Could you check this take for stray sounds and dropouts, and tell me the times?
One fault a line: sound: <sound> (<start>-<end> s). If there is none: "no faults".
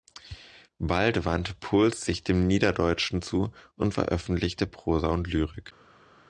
no faults